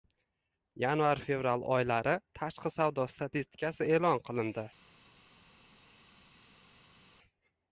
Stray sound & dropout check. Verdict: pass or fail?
pass